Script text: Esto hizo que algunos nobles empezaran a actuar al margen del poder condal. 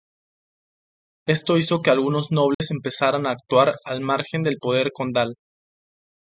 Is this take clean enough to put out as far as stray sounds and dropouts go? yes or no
no